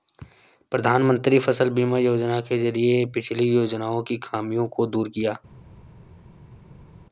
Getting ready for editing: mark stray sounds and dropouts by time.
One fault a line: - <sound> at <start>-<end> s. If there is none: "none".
none